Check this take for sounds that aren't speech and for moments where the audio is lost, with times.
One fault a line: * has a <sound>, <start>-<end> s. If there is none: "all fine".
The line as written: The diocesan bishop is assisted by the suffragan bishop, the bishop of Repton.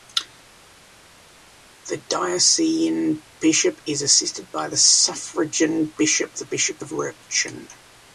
all fine